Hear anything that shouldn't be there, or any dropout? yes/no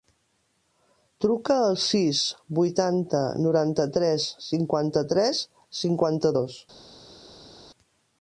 no